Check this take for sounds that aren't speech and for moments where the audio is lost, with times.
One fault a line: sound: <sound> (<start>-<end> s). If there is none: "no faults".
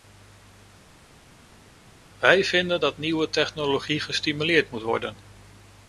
no faults